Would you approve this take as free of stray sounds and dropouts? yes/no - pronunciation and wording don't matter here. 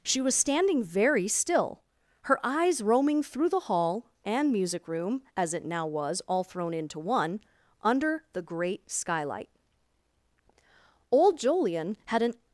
yes